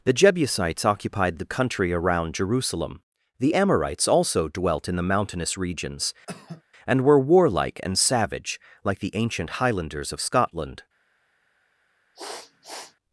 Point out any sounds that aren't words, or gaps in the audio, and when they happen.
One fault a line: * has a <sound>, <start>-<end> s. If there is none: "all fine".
* has a cough, 6.3-6.6 s
* has a sniff, 12.1-13.0 s